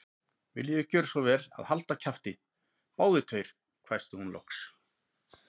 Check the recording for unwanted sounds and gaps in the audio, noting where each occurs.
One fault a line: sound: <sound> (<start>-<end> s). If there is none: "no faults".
no faults